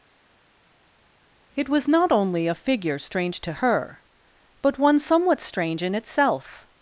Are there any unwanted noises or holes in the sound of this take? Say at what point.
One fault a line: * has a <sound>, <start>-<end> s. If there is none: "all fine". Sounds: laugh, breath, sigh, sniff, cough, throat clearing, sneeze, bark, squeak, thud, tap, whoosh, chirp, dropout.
all fine